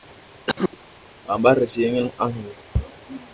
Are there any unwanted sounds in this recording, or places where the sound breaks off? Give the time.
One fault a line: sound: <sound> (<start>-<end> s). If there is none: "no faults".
sound: cough (0.5-0.8 s)